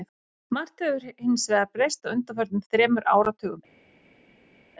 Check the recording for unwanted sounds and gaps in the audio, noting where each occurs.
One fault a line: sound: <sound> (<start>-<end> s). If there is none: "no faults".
no faults